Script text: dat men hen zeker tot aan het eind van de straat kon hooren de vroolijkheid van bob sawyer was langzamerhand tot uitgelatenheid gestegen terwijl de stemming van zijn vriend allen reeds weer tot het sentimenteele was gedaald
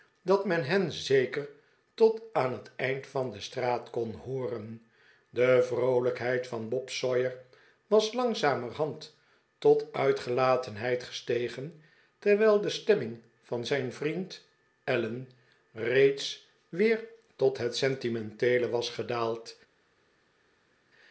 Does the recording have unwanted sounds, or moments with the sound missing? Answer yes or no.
no